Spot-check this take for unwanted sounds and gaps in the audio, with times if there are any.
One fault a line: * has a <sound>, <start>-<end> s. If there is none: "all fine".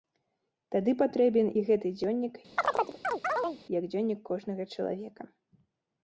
* has a chirp, 2.6-3.6 s